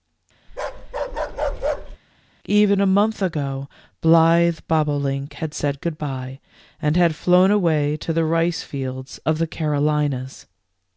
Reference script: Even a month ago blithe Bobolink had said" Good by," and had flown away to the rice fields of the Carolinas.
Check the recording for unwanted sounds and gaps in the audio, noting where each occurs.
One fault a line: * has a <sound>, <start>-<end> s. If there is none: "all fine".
* has a bark, 0.5-2.0 s